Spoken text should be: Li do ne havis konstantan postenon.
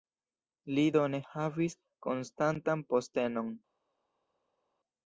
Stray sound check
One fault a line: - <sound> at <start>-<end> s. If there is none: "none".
none